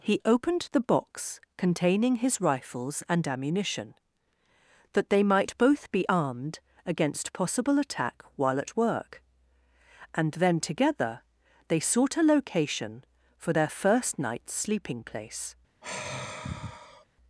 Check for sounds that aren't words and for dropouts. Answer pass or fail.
fail